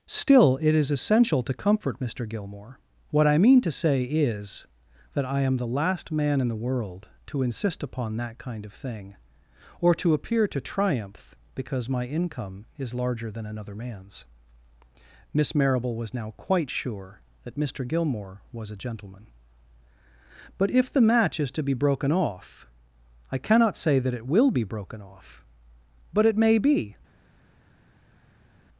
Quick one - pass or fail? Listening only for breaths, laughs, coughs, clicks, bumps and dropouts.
pass